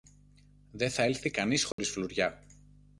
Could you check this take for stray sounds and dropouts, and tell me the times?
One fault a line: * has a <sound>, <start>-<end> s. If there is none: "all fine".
* has a dropout, 1.7-1.8 s